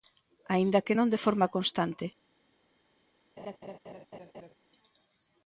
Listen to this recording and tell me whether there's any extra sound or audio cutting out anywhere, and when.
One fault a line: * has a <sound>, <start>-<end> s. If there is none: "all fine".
* has a laugh, 3.4-4.5 s